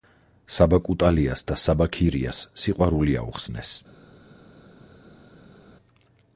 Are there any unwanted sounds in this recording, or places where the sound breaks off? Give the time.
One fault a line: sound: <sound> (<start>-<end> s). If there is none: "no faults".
no faults